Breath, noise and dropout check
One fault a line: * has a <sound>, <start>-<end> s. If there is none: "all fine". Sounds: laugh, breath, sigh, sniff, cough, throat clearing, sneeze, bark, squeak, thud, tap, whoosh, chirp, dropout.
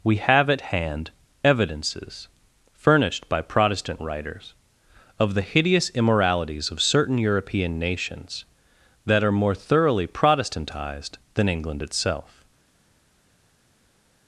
all fine